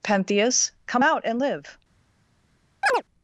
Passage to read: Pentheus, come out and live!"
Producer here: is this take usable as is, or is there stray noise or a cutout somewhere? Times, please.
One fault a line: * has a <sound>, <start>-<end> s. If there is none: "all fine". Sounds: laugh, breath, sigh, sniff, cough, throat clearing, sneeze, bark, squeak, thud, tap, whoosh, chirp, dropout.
* has a chirp, 2.8-3.0 s